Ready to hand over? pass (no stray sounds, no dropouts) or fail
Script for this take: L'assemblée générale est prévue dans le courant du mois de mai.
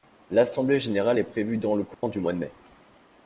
fail